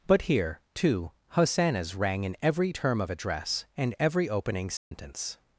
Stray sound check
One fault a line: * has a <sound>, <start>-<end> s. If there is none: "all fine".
* has a dropout, 4.8-4.9 s